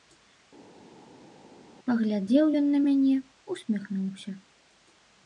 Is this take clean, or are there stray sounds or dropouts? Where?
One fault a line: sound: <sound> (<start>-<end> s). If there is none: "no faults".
no faults